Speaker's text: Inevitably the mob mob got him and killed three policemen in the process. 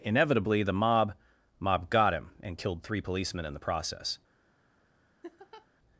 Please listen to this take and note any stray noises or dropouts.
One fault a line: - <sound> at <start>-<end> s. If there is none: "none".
- laugh at 5.2-5.7 s